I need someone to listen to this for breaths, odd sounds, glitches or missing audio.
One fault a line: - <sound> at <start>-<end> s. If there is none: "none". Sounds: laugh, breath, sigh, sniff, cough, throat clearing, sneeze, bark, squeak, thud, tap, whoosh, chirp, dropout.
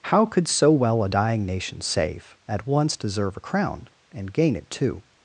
none